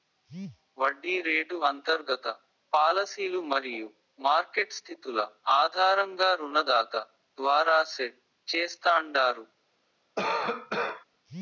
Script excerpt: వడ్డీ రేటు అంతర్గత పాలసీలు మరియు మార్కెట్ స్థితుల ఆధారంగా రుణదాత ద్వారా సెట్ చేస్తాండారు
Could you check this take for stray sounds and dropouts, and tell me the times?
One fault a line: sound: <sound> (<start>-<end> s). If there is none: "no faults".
sound: cough (10.2-11.0 s)